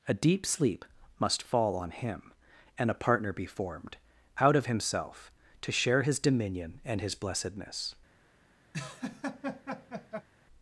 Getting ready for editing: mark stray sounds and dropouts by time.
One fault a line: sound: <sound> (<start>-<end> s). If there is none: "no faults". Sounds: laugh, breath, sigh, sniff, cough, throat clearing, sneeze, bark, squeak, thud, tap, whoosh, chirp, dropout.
sound: laugh (8.7-10.3 s)